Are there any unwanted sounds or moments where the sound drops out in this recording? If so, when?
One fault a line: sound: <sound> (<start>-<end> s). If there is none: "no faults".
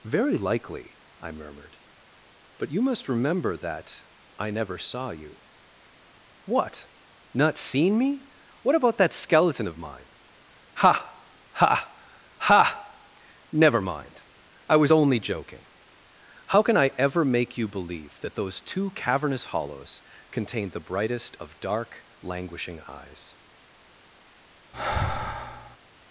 sound: sigh (24.7-25.8 s)